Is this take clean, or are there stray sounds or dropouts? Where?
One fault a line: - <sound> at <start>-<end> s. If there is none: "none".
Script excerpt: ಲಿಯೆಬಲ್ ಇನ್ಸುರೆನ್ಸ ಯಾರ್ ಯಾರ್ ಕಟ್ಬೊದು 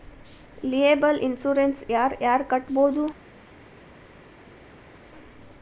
none